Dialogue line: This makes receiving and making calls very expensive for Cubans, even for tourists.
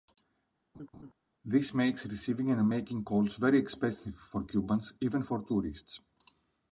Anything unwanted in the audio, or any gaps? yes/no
yes